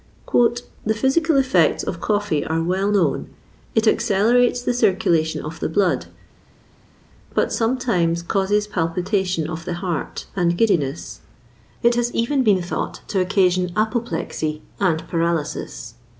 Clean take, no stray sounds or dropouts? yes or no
yes